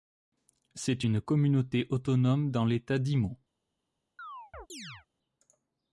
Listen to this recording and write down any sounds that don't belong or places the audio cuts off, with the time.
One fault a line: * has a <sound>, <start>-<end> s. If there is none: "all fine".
* has a chirp, 4.2-5.1 s